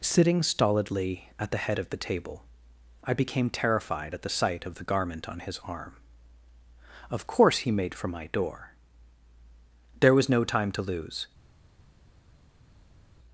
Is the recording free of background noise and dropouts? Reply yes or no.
yes